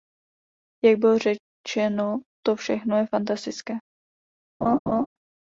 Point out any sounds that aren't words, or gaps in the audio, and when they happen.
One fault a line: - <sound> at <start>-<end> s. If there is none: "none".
- laugh at 4.6-5.1 s